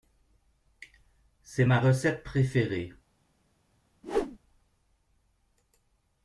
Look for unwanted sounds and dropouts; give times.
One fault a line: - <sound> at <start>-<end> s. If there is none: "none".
- whoosh at 4.0-4.4 s